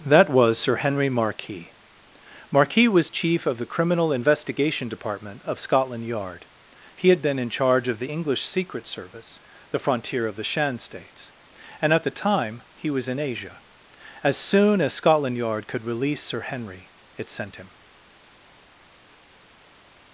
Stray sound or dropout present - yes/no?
no